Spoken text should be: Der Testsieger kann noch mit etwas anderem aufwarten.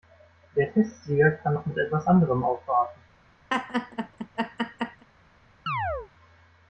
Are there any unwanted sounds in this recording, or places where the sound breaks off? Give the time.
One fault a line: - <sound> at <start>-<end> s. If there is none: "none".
- laugh at 3.5-5.0 s
- chirp at 5.7-6.1 s